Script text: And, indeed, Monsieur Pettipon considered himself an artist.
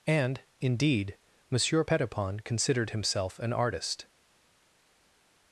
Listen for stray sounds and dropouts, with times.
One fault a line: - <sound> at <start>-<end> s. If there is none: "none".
none